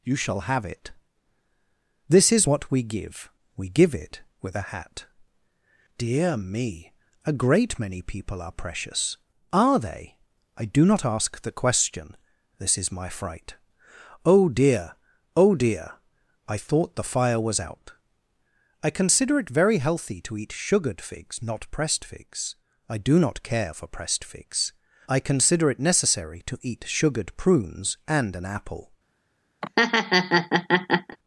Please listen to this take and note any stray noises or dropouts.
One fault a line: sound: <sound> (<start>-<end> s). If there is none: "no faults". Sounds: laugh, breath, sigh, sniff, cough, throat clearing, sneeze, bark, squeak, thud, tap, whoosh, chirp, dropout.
sound: laugh (29.6-31.2 s)